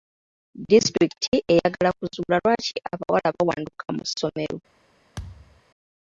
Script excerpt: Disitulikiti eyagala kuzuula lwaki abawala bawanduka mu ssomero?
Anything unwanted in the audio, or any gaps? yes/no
yes